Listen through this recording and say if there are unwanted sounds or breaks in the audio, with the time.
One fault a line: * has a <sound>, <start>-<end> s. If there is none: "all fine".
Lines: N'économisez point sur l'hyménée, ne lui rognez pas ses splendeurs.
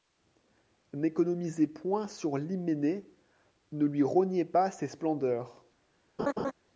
* has a laugh, 6.2-6.5 s